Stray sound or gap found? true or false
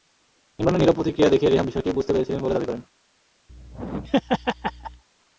true